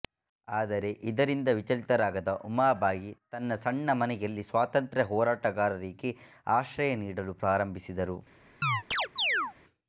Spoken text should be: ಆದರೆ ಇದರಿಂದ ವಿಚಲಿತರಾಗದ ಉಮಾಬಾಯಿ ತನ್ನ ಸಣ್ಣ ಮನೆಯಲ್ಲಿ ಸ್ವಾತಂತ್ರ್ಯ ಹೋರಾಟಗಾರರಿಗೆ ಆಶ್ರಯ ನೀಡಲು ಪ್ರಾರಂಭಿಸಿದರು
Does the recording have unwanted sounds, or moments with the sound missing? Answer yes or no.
yes